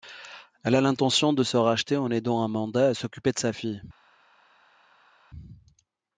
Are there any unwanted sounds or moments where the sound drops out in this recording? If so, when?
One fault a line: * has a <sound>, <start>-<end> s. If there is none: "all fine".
all fine